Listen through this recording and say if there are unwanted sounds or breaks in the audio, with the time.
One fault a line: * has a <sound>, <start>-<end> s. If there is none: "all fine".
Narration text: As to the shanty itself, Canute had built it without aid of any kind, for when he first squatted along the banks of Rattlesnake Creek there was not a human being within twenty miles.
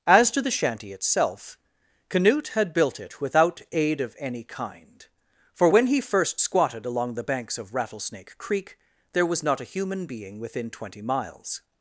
all fine